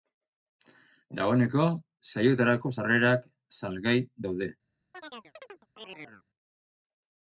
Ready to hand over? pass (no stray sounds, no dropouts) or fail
fail